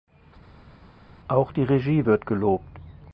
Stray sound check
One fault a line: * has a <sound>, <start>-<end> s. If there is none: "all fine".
all fine